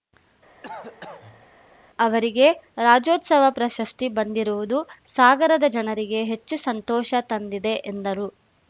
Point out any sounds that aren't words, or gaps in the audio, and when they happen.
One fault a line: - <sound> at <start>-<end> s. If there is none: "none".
- cough at 0.6-1.5 s